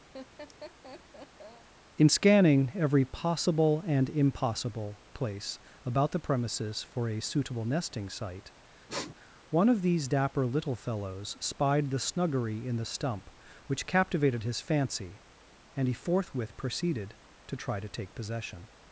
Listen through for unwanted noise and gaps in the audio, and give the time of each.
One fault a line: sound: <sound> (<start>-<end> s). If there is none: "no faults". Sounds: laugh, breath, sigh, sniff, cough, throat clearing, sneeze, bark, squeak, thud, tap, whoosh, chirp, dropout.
sound: laugh (0.1-1.7 s)
sound: sniff (8.9-9.1 s)